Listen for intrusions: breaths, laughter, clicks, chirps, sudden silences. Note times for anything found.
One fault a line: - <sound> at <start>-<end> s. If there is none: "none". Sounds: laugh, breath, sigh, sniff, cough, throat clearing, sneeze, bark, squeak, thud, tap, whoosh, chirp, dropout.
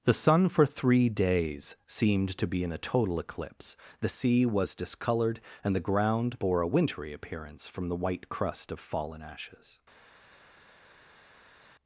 none